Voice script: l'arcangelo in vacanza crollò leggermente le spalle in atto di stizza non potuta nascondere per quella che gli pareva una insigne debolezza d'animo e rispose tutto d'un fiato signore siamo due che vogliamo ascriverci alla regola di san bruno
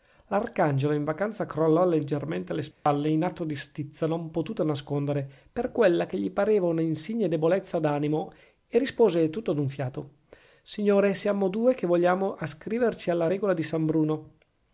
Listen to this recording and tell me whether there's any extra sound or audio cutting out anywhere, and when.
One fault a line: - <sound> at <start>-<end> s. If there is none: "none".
- dropout at 2.7-2.9 s